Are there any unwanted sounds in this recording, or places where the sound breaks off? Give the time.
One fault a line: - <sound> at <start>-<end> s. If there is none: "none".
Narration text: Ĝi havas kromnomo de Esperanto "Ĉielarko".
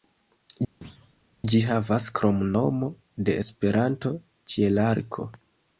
- thud at 0.8-1.1 s